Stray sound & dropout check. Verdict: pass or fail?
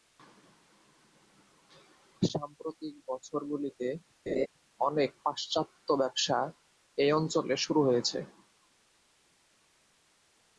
fail